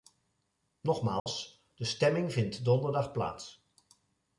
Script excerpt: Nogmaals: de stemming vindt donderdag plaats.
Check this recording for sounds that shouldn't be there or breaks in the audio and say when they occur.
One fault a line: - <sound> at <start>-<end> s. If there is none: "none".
- dropout at 1.2-1.3 s